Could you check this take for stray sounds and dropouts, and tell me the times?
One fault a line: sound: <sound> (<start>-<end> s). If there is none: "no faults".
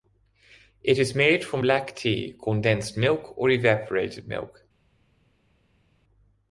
no faults